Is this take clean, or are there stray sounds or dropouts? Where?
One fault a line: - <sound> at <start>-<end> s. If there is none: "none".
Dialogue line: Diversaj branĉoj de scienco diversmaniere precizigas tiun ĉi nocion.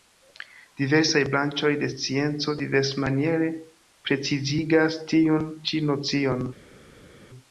none